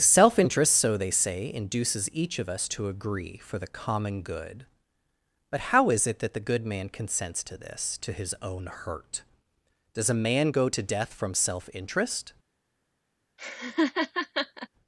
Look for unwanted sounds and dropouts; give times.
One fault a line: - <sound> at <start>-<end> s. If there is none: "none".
- laugh at 13.4-14.7 s